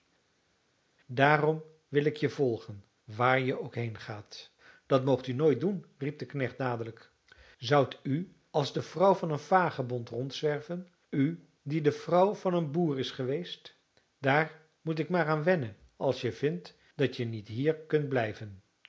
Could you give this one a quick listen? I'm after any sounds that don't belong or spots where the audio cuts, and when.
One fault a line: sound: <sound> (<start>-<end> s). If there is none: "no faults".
no faults